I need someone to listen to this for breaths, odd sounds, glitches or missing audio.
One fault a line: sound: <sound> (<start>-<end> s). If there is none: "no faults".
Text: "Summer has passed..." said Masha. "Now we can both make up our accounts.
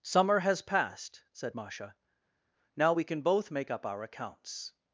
no faults